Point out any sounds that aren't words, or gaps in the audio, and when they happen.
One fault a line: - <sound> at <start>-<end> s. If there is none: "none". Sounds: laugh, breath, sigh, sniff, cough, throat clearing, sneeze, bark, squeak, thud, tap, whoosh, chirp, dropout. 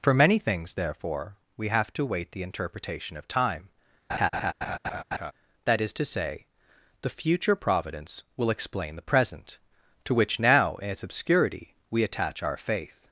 - laugh at 4.1-5.3 s